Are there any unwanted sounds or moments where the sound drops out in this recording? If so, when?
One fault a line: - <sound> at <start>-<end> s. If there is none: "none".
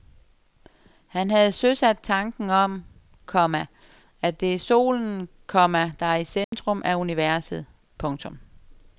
- dropout at 6.4-6.5 s